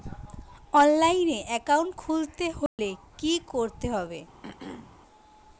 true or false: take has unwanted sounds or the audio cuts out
true